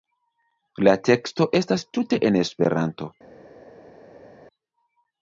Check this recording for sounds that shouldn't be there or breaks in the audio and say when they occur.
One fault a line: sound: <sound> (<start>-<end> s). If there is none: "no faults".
no faults